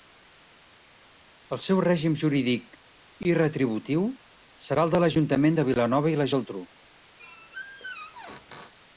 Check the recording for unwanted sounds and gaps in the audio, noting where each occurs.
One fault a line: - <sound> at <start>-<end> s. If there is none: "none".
- squeak at 7.2-8.7 s